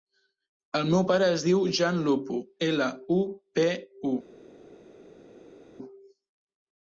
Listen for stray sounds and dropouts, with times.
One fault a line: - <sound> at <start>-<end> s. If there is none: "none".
none